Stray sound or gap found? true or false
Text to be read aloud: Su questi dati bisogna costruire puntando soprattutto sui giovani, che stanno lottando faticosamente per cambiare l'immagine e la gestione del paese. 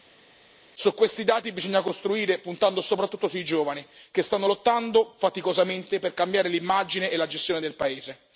false